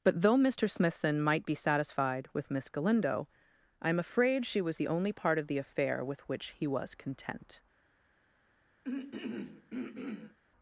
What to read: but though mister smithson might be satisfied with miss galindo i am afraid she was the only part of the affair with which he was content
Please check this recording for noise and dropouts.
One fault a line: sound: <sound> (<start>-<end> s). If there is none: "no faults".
sound: throat clearing (8.8-10.4 s)